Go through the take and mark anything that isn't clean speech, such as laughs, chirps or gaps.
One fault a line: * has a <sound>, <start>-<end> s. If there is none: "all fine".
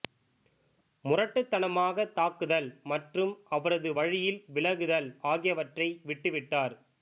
all fine